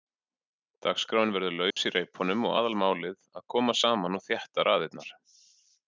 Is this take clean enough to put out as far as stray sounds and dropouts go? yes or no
no